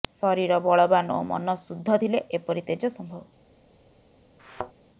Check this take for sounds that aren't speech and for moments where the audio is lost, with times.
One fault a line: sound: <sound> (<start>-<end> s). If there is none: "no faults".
sound: thud (4.4-4.7 s)